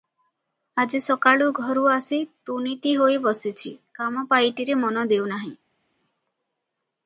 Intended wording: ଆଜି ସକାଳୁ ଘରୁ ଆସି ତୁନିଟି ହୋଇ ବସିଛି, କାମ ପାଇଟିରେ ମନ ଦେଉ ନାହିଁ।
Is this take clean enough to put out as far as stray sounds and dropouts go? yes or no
yes